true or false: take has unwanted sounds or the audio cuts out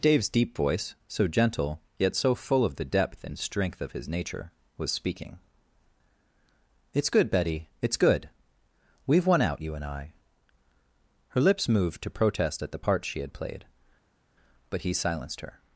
false